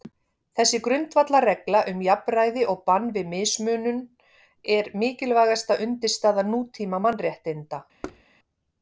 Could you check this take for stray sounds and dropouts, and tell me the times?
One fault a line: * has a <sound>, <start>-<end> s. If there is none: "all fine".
* has a thud, 8.0-8.2 s